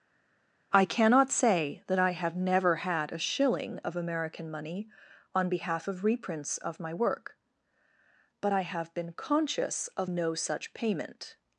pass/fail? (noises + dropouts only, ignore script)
pass